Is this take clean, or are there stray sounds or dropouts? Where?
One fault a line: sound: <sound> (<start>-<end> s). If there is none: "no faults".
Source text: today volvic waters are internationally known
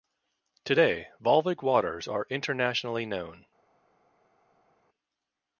no faults